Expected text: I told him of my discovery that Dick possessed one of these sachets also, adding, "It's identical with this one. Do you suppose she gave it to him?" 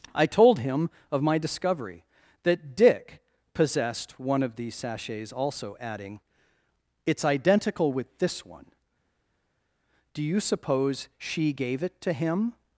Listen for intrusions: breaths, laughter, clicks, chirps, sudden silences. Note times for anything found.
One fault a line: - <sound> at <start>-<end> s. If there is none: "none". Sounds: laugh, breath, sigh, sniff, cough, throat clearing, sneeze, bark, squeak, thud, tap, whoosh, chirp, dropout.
none